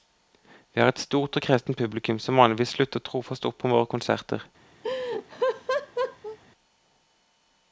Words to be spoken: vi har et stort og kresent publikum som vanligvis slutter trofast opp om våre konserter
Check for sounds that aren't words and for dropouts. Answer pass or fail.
fail